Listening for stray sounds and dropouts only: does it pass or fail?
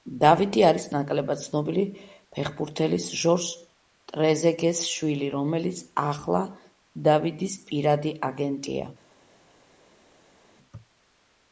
pass